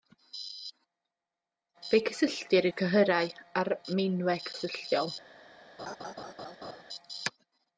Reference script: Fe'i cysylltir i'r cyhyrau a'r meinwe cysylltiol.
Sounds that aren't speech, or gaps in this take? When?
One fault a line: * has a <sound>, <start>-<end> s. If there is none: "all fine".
* has a laugh, 5.8-6.8 s